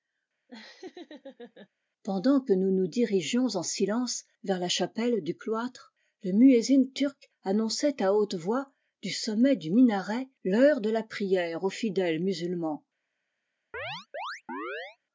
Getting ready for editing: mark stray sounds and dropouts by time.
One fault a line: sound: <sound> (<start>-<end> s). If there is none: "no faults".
sound: laugh (0.5-1.7 s)
sound: chirp (13.7-15.0 s)